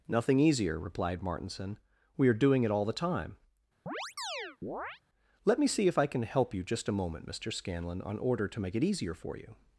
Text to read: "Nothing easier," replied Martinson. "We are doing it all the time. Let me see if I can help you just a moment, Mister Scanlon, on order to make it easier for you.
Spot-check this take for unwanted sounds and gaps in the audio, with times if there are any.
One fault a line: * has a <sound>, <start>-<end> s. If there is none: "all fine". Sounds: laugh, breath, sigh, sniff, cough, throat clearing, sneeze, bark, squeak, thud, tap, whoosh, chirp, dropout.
* has a chirp, 3.9-5.0 s